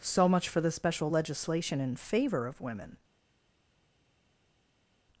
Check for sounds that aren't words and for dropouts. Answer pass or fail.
pass